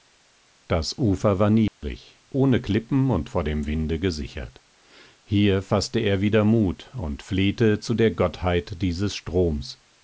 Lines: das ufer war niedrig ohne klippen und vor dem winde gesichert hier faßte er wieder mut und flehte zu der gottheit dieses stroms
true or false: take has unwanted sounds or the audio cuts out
true